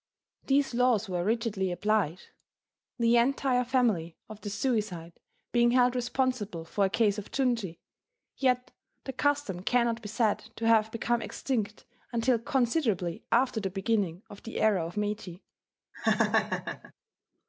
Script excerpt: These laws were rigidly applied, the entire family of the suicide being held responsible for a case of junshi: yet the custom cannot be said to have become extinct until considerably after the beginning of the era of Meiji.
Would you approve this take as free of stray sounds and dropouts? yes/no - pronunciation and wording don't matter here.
no